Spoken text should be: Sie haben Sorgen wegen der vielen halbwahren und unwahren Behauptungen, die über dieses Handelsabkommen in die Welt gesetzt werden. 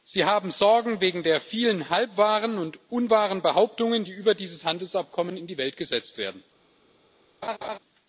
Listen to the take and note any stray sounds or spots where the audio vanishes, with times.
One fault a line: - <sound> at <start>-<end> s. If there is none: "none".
- laugh at 7.4-7.8 s